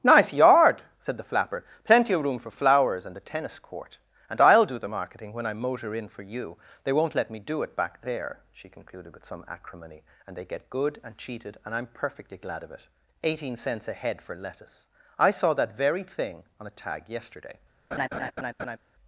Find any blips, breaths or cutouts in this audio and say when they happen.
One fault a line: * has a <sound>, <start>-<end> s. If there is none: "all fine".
* has a laugh, 17.9-18.8 s